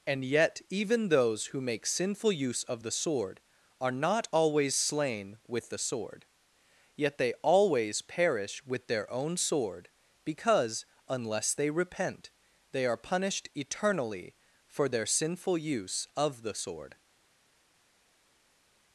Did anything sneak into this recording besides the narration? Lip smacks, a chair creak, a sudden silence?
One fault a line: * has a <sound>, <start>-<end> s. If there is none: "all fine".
all fine